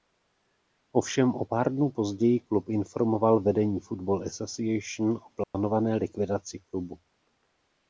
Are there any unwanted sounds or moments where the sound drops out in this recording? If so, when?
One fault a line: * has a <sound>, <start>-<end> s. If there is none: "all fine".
* has a dropout, 5.4-5.5 s